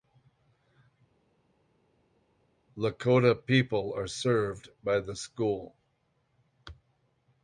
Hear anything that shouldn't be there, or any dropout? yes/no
no